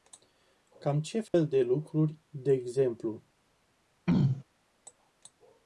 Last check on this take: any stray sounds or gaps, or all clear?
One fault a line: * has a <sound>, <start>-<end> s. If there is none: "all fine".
* has a dropout, 1.3-1.3 s
* has a throat clearing, 4.1-4.4 s